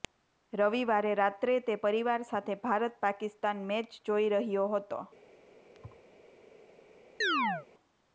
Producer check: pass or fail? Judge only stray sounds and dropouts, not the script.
fail